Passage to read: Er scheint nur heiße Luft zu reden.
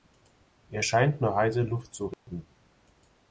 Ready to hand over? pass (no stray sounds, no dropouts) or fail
fail